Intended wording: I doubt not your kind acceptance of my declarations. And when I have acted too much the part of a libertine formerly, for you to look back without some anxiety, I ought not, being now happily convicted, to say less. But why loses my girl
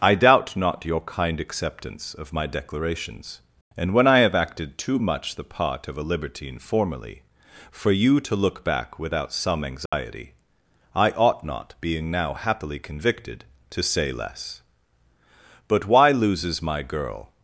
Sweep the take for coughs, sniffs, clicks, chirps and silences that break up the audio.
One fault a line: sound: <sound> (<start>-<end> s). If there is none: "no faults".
sound: dropout (9.9-9.9 s)